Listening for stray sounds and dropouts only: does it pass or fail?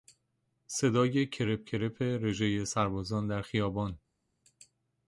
pass